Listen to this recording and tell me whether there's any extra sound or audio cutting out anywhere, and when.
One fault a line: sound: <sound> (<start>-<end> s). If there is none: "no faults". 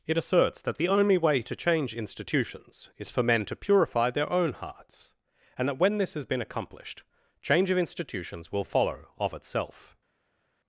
no faults